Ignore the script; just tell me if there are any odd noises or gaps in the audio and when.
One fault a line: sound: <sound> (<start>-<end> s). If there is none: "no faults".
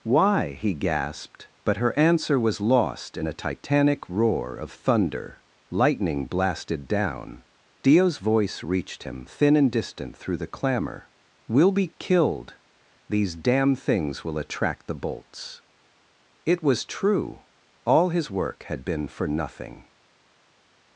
no faults